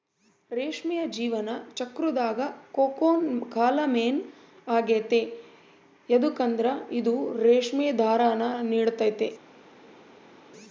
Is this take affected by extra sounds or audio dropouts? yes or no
no